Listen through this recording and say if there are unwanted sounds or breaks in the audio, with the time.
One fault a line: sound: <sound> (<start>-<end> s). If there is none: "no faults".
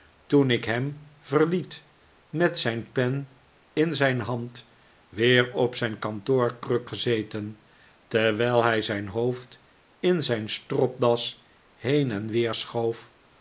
no faults